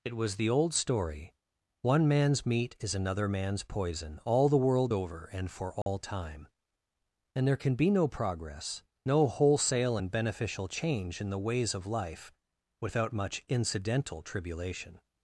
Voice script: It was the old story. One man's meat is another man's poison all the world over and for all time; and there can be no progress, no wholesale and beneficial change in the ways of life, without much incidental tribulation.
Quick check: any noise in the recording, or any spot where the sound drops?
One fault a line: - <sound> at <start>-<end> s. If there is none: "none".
- dropout at 5.8-5.9 s